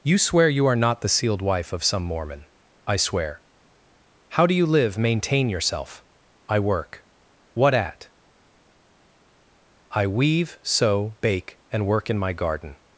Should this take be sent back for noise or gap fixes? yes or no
no